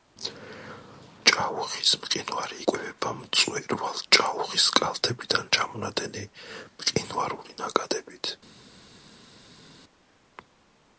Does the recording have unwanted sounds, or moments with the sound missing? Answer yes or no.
no